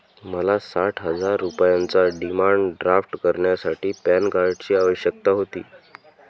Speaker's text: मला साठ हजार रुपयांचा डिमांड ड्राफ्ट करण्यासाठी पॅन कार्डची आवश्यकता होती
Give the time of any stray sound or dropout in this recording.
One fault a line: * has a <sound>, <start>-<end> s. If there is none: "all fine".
all fine